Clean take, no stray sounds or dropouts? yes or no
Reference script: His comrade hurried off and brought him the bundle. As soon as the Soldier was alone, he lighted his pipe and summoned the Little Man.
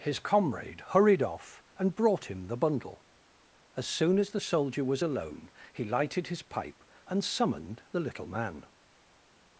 yes